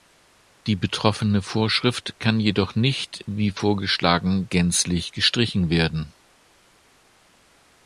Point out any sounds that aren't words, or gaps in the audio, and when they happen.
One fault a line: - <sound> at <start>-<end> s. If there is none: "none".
none